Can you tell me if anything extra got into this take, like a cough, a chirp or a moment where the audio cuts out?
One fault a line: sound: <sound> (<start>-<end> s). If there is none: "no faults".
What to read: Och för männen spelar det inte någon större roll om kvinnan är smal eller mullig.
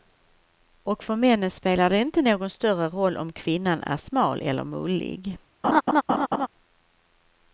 sound: laugh (5.6-6.5 s)